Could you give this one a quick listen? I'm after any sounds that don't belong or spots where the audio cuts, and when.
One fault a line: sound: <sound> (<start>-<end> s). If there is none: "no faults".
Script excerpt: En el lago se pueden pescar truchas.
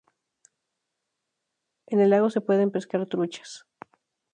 no faults